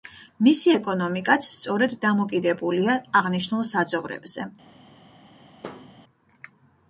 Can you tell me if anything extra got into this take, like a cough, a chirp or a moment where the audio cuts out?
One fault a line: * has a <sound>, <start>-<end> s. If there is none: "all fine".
* has a thud, 5.6-5.9 s